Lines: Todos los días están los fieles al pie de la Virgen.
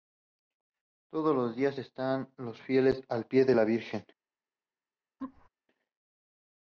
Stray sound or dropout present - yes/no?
yes